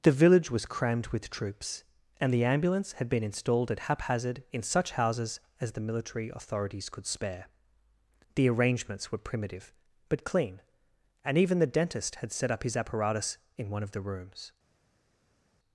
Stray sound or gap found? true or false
false